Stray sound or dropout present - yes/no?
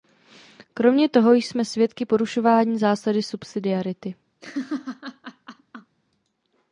yes